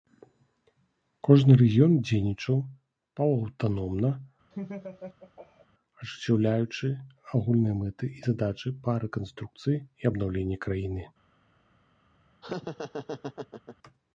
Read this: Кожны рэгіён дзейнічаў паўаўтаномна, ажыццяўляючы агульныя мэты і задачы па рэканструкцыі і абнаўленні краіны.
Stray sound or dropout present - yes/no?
yes